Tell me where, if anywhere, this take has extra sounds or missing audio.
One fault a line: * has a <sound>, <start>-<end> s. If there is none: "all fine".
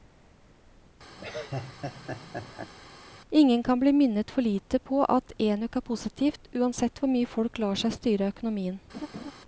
* has a laugh, 1.2-2.7 s
* has a laugh, 8.9-9.3 s